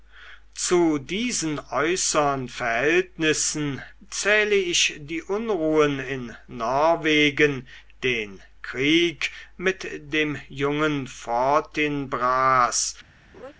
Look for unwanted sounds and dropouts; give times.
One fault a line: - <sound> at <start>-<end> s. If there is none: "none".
- laugh at 13.3-13.5 s